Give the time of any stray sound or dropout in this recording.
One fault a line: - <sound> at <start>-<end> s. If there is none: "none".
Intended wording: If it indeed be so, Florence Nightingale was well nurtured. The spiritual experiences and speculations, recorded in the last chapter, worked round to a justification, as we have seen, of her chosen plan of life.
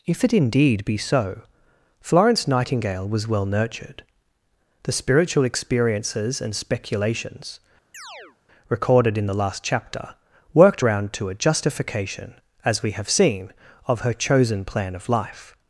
- chirp at 7.9-8.4 s